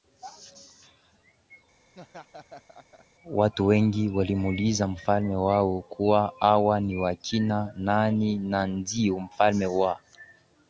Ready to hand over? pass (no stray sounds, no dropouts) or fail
fail